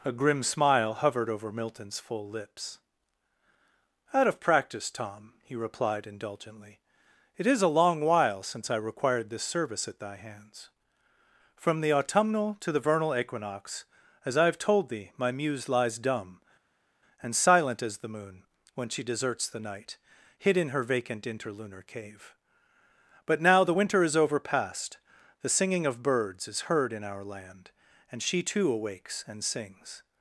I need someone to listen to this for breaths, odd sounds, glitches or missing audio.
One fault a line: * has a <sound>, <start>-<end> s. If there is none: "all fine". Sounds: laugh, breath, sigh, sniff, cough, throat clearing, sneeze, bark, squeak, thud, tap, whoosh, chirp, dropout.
all fine